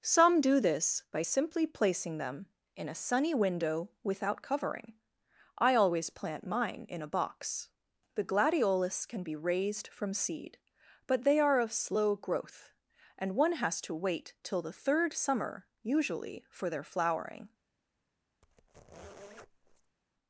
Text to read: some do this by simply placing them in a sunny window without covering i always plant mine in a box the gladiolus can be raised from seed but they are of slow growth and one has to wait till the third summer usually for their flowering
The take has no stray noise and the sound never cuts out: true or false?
false